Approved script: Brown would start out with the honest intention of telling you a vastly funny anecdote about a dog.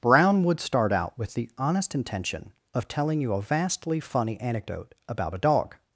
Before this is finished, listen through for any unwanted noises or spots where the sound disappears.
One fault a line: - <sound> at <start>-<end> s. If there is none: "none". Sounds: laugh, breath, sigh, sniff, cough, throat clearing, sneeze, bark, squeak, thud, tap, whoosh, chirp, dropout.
none